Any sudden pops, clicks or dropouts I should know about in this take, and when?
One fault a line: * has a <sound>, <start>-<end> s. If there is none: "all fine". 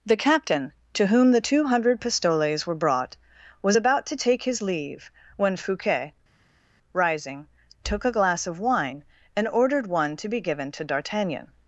all fine